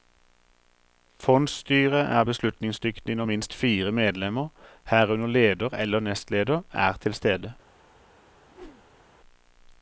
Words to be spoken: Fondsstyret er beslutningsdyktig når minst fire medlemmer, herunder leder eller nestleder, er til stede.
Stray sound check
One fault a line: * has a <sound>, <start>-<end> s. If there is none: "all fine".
* has a whoosh, 8.5-9.0 s